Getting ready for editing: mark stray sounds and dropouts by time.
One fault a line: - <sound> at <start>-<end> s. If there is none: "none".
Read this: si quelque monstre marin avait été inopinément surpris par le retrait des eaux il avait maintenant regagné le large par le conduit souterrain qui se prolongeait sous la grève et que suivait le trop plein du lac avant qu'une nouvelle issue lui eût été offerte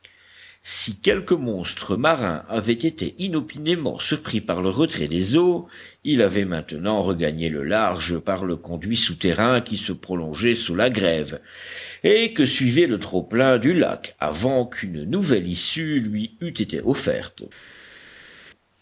none